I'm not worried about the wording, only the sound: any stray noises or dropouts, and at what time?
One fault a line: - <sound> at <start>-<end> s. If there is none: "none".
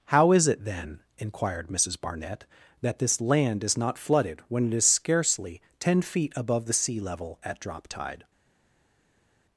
none